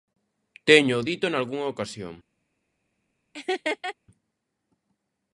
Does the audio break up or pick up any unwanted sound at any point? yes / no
yes